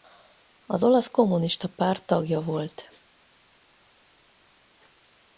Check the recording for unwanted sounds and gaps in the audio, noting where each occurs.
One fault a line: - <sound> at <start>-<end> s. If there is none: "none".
none